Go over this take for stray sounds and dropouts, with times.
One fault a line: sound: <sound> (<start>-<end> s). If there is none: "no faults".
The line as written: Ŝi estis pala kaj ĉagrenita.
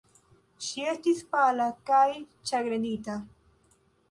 no faults